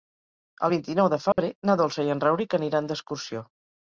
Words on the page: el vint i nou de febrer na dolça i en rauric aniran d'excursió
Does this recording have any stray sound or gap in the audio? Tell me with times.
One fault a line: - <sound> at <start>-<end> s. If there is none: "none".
- dropout at 1.3-1.4 s